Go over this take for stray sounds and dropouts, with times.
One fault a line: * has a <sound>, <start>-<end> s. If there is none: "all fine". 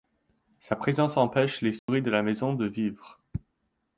* has a dropout, 1.8-1.9 s